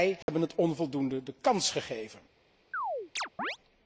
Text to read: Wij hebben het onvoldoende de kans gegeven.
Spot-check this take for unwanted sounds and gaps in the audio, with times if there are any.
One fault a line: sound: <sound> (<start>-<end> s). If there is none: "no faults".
sound: dropout (0.2-0.3 s)
sound: chirp (2.7-3.6 s)